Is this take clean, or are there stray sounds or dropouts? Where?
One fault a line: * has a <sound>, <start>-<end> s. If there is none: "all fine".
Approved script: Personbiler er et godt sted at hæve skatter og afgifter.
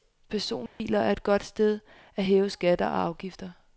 * has a dropout, 0.7-0.8 s